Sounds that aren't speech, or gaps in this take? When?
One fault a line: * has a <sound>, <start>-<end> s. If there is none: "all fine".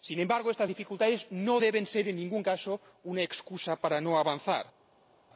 all fine